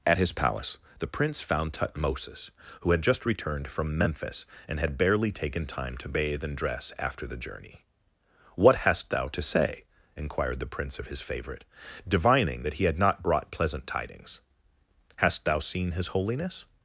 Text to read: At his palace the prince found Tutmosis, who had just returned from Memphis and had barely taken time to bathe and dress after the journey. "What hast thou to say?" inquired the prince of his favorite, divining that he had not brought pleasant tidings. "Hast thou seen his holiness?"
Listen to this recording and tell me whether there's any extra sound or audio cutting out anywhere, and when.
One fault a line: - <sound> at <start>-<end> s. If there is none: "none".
none